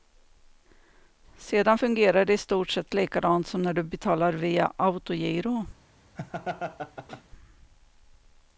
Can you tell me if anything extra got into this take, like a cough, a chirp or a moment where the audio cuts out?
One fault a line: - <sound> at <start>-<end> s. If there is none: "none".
- laugh at 6.2-7.2 s